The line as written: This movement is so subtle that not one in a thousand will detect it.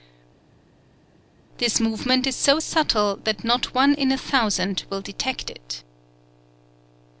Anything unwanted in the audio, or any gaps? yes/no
no